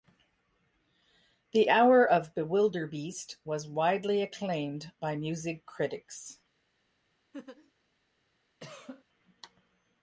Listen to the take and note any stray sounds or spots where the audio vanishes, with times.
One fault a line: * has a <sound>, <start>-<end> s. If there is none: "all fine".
* has a laugh, 7.3-7.7 s
* has a cough, 8.6-9.0 s